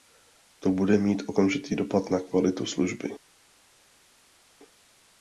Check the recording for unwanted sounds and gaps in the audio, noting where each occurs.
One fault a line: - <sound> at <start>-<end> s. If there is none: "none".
none